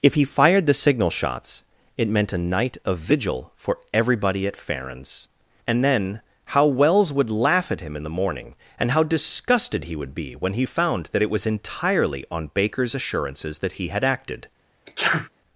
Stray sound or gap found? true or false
true